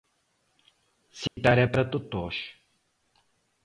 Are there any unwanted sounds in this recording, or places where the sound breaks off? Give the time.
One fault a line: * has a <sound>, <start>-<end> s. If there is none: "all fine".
* has a dropout, 1.3-1.4 s